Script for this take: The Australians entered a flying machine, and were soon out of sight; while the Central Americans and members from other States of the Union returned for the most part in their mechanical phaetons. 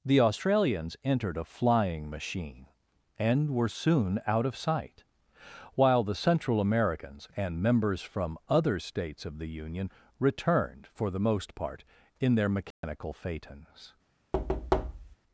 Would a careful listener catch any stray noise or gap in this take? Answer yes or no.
yes